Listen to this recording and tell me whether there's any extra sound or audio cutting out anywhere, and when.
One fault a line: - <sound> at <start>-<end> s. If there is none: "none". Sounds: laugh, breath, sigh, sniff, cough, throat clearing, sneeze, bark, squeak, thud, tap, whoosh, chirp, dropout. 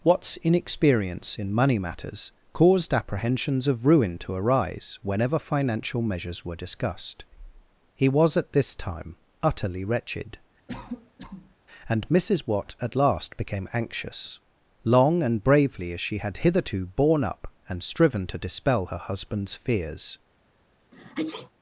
- cough at 10.7-11.6 s
- sneeze at 20.9-21.5 s